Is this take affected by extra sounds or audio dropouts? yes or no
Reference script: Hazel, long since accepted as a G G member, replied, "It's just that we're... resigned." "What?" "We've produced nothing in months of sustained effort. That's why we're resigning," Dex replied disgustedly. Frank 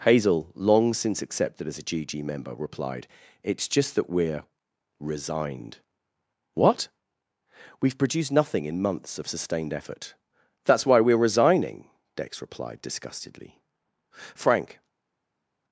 no